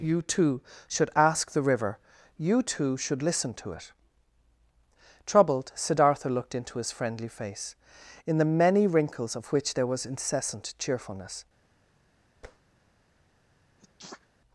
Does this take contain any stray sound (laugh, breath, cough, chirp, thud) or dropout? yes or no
yes